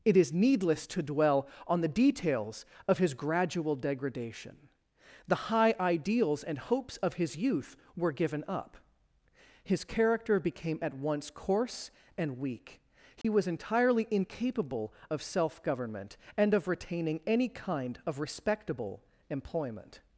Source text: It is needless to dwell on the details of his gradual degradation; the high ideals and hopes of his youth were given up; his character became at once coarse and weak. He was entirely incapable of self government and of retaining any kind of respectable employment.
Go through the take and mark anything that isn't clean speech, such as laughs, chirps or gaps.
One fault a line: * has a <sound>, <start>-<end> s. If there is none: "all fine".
* has a dropout, 13.2-13.2 s